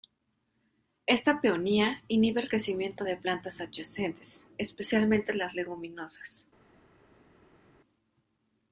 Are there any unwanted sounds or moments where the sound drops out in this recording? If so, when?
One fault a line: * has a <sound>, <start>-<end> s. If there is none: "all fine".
all fine